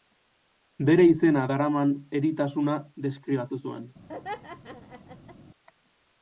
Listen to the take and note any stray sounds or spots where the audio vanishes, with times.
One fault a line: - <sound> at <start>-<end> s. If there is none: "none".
- laugh at 4.1-5.4 s